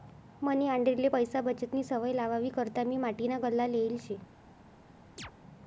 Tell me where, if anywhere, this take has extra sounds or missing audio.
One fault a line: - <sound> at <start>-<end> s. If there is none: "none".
- chirp at 5.2-5.3 s